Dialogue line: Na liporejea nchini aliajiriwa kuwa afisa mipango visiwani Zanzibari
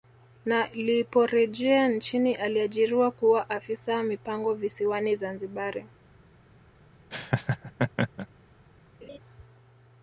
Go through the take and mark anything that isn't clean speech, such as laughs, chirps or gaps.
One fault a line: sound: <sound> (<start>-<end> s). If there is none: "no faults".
sound: laugh (7.1-8.3 s)
sound: laugh (9.0-9.2 s)